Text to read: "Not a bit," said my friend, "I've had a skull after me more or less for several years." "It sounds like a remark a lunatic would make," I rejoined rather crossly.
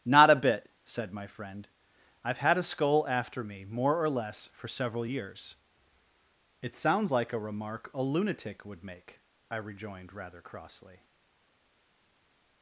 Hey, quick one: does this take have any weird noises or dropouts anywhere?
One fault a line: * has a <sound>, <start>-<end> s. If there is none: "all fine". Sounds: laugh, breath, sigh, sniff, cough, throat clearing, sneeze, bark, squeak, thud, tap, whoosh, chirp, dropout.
all fine